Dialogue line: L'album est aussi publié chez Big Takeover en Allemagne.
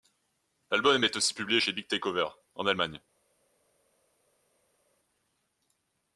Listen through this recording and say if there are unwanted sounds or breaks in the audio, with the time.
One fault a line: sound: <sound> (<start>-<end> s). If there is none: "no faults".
no faults